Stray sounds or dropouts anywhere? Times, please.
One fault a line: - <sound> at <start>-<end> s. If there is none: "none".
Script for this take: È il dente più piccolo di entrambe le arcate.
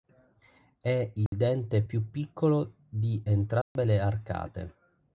- dropout at 1.3-1.3 s
- dropout at 3.6-3.8 s